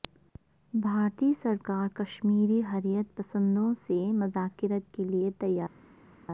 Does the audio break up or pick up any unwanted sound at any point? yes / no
no